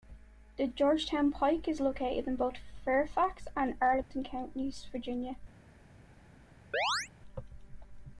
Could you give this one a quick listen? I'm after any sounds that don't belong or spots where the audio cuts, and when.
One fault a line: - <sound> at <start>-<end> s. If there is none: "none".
- dropout at 4.0-4.1 s
- chirp at 6.7-7.1 s